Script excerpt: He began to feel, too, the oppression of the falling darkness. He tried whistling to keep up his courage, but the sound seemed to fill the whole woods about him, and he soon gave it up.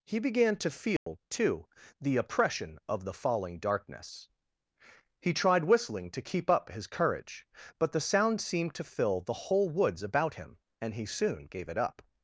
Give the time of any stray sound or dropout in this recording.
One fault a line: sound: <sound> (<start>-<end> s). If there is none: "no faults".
sound: dropout (1.0-1.1 s)